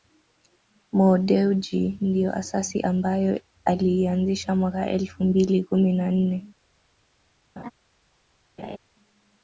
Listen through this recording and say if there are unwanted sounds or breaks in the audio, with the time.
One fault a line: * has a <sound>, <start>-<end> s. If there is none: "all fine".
* has a laugh, 7.6-7.7 s
* has a laugh, 8.6-8.8 s